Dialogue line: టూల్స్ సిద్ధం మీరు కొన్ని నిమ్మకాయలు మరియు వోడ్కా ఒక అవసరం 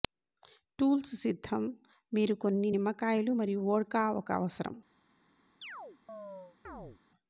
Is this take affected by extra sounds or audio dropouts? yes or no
yes